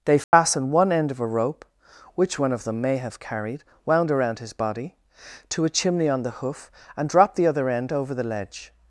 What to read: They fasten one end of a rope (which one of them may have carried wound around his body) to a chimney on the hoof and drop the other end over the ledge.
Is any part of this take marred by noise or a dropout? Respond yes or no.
yes